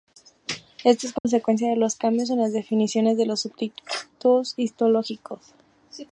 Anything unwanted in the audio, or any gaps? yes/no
yes